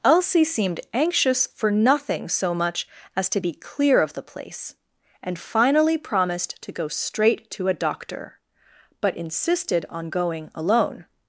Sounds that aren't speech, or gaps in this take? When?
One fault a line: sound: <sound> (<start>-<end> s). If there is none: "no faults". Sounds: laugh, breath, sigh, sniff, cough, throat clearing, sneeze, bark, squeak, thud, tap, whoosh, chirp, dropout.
no faults